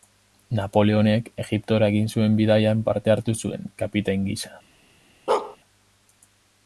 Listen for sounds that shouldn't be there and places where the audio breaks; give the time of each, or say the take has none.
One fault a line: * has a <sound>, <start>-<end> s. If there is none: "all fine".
* has a bark, 5.3-5.6 s